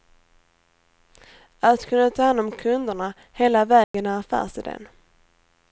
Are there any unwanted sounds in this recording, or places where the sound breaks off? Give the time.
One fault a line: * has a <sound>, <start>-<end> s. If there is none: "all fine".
* has a dropout, 3.8-3.9 s